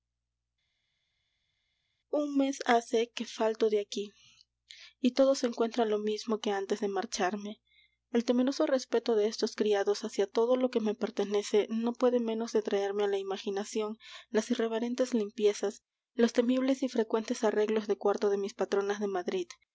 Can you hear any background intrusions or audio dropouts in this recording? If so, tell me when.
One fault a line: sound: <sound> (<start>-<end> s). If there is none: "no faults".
no faults